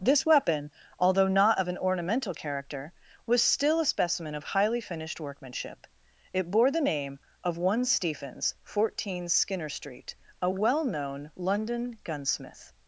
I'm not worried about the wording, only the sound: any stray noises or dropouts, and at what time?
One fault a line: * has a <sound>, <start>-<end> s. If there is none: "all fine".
all fine